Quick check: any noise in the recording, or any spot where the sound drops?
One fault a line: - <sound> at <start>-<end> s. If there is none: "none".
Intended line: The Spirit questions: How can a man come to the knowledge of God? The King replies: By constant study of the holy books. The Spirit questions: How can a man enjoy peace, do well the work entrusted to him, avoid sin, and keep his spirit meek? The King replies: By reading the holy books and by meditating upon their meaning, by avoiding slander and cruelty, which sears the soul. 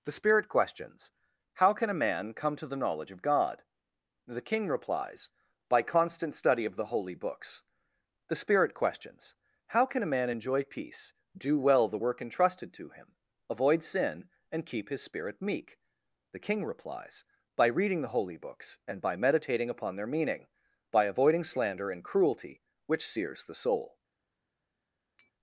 - tap at 25.2-25.3 s